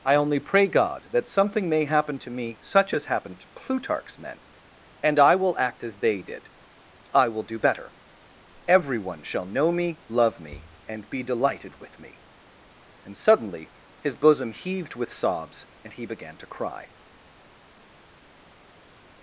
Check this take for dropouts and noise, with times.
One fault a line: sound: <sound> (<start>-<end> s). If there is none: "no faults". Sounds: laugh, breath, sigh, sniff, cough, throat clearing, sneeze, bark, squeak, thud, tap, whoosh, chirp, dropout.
no faults